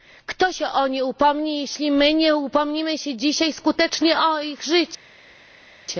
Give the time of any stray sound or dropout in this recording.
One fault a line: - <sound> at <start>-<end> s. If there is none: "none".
none